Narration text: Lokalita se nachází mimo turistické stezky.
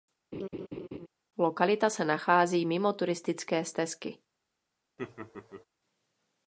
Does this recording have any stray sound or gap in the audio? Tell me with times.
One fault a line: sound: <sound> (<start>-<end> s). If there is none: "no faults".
sound: laugh (0.3-1.1 s)
sound: laugh (5.0-5.6 s)